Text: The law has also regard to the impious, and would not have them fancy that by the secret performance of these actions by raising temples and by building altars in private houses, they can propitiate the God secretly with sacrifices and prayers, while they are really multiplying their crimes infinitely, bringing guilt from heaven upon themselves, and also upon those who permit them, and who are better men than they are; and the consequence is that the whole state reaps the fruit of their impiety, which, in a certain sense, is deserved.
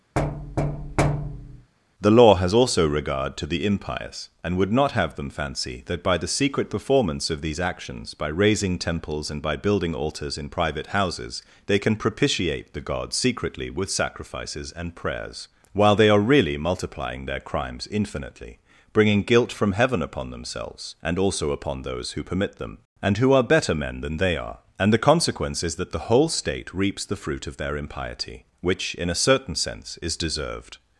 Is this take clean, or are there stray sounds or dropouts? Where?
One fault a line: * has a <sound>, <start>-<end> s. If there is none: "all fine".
* has a thud, 0.2-1.7 s